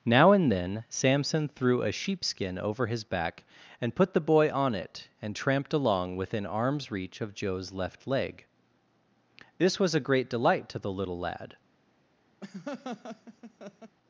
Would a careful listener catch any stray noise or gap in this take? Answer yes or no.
yes